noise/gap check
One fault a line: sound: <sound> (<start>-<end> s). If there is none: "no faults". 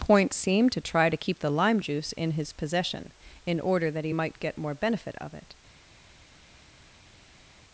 no faults